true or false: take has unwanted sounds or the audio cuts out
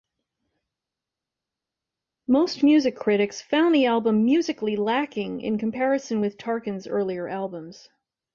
false